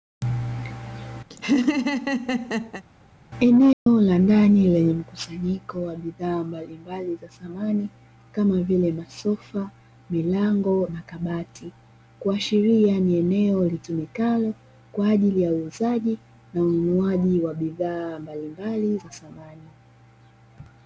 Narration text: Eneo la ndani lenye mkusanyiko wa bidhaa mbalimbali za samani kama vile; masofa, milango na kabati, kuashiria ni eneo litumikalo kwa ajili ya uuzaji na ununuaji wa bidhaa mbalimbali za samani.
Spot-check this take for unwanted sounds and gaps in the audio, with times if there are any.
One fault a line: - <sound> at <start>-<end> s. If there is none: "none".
- laugh at 1.3-2.8 s
- dropout at 3.7-3.9 s